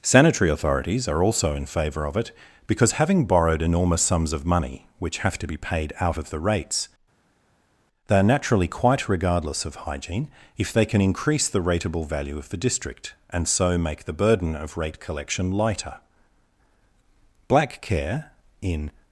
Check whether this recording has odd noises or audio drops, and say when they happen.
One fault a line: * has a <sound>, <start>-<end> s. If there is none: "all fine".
all fine